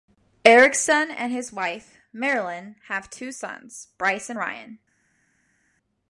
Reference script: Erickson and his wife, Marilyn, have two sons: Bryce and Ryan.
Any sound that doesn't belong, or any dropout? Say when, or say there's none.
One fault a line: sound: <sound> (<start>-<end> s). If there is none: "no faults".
no faults